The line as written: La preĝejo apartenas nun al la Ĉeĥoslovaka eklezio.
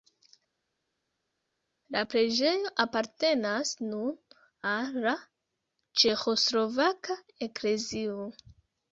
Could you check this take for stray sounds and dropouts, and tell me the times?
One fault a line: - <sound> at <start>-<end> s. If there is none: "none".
none